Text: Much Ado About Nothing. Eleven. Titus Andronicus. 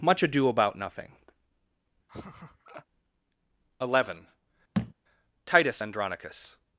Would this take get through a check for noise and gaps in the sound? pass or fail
fail